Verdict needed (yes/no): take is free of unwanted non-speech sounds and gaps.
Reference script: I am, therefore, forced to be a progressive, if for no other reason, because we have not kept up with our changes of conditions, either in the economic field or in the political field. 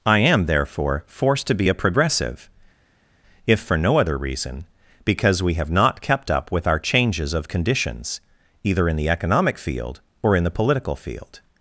yes